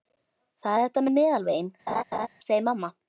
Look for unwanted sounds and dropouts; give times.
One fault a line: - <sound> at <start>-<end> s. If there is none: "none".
- laugh at 1.9-2.3 s